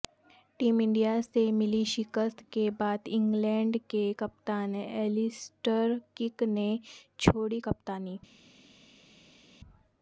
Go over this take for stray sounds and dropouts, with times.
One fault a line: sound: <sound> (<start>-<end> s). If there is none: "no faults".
no faults